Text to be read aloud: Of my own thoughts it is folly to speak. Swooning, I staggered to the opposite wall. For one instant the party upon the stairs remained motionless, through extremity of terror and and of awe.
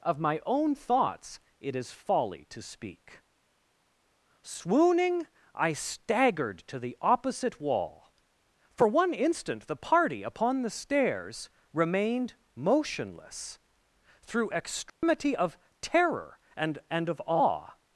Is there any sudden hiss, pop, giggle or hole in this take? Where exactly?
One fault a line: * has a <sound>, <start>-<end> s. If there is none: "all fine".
* has a dropout, 14.9-15.0 s